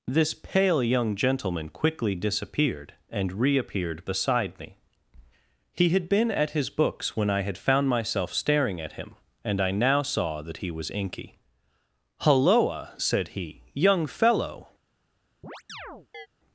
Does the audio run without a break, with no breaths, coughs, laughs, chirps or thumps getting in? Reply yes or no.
no